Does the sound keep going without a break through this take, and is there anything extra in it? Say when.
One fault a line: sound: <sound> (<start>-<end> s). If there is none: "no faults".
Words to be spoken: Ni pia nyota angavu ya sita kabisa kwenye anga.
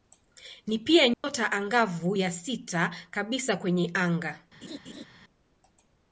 sound: dropout (1.1-1.2 s)
sound: laugh (4.6-5.1 s)